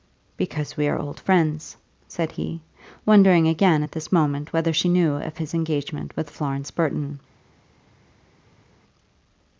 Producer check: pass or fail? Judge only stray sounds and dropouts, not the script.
pass